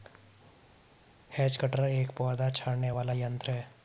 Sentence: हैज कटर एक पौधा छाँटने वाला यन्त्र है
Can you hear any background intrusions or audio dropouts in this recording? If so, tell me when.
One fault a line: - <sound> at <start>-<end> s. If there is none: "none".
none